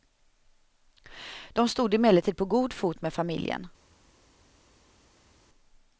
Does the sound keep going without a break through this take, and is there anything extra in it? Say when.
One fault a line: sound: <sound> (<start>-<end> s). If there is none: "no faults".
no faults